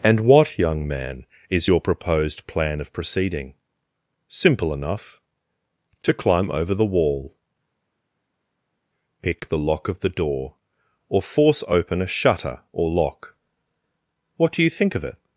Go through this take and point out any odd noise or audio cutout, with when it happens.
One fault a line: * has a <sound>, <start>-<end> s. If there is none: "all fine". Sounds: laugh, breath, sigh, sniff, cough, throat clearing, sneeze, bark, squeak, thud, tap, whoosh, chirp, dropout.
all fine